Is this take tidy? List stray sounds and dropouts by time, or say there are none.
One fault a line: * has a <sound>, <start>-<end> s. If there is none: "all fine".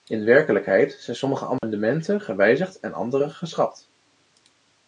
* has a dropout, 1.6-1.6 s